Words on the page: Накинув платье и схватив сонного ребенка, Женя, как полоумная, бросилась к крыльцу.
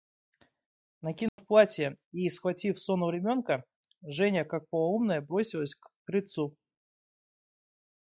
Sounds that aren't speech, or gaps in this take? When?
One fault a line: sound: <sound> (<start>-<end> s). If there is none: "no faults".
sound: dropout (1.3-1.4 s)